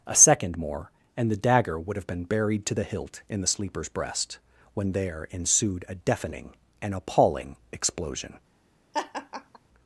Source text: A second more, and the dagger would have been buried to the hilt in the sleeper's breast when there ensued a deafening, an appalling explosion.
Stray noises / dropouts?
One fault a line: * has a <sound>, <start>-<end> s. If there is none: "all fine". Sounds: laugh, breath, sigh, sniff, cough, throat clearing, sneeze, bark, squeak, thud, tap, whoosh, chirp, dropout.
* has a laugh, 8.9-9.6 s